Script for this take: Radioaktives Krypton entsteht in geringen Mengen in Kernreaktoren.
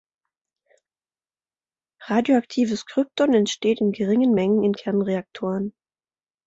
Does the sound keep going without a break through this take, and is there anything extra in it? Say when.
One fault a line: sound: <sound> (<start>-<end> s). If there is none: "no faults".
no faults